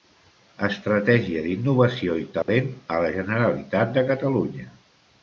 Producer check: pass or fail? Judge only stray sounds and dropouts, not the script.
fail